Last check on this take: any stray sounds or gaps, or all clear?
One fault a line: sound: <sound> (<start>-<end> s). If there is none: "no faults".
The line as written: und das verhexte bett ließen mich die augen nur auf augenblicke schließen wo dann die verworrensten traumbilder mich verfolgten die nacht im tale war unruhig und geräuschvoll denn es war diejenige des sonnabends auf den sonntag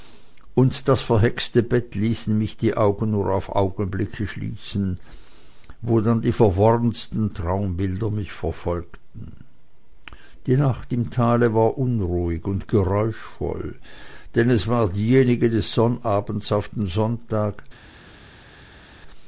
no faults